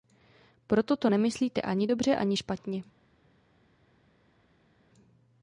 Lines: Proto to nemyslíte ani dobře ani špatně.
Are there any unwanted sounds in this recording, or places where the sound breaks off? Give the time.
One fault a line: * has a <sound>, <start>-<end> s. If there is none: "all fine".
all fine